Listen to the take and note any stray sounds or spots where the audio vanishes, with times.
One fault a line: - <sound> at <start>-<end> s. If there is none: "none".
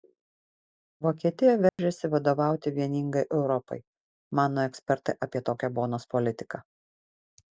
- dropout at 1.7-1.8 s